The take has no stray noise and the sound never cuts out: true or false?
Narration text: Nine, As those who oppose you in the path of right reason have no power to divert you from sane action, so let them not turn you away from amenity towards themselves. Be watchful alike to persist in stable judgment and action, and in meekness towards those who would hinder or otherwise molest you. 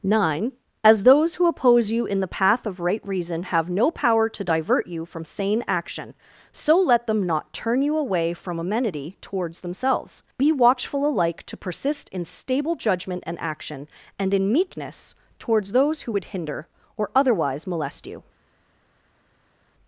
true